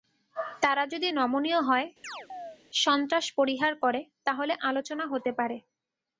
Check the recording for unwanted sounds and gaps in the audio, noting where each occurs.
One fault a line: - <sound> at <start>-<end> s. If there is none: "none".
- chirp at 2.0-2.6 s